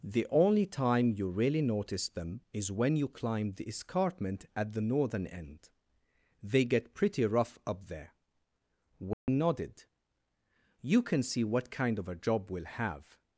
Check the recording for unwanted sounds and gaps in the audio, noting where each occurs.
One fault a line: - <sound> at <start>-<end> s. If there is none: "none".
- dropout at 9.1-9.3 s